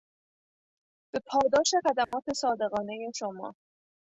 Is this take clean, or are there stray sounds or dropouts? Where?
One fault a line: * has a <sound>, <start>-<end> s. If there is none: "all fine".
* has a dropout, 2.0-2.1 s